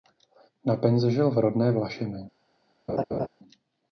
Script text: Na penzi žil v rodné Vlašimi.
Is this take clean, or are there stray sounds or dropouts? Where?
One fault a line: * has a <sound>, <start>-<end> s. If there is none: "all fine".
* has a laugh, 2.9-3.3 s